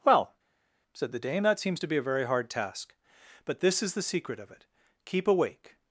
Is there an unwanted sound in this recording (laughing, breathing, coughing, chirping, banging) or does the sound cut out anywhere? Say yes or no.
no